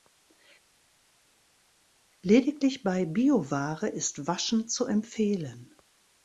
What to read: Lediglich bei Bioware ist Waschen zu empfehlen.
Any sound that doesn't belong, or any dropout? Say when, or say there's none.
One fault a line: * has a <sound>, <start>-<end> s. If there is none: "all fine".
all fine